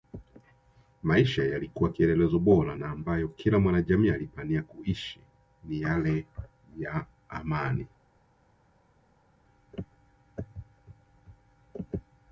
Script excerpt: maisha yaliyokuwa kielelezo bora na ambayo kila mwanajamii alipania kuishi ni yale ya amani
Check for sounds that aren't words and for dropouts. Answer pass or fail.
pass